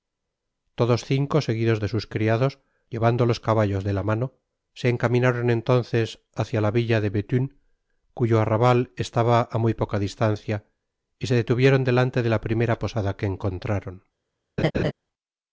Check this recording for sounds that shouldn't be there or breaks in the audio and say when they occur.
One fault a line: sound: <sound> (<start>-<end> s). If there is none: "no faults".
sound: laugh (14.6-14.9 s)